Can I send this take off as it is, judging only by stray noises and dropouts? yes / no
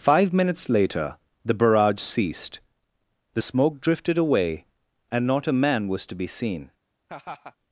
no